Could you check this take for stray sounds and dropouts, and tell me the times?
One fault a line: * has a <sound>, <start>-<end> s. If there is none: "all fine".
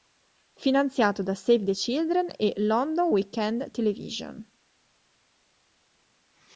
all fine